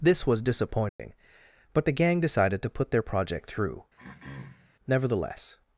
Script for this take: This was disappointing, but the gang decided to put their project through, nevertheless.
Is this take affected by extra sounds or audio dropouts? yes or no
yes